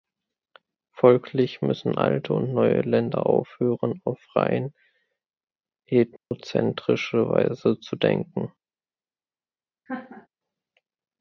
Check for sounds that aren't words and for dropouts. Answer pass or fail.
fail